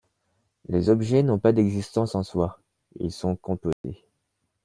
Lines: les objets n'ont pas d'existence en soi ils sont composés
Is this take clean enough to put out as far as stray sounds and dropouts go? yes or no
no